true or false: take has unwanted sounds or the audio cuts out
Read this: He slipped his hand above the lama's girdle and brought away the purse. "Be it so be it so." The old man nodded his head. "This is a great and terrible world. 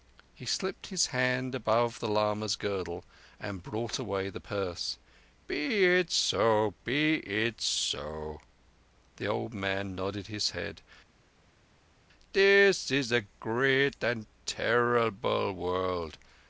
false